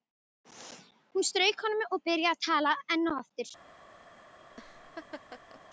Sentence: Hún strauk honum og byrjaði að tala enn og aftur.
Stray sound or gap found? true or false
true